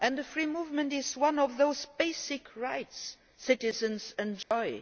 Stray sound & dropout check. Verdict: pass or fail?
fail